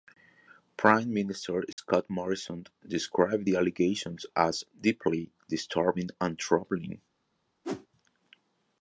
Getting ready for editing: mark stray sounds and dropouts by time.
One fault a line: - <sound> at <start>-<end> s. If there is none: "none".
- dropout at 1.7-1.8 s
- whoosh at 7.6-7.9 s